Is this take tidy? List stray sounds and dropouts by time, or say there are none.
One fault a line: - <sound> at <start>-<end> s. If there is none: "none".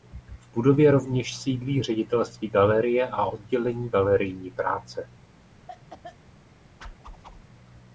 - cough at 5.7-6.2 s
- whoosh at 6.8-7.4 s